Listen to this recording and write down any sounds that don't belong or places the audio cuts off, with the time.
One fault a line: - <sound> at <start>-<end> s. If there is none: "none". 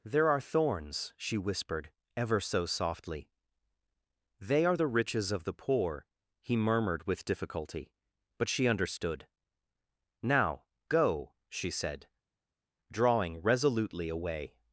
none